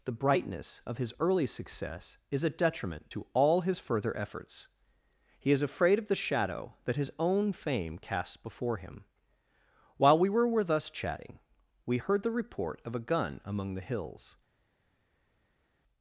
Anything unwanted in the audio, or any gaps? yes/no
no